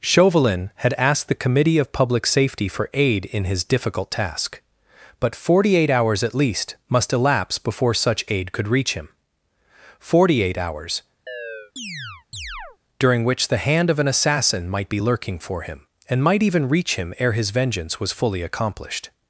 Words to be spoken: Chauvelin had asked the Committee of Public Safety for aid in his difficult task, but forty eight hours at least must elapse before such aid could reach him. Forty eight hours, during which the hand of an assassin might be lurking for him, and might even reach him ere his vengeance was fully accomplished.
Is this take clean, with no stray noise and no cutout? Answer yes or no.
no